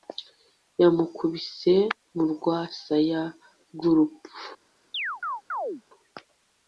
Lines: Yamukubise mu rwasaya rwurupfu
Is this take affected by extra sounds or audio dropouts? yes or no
yes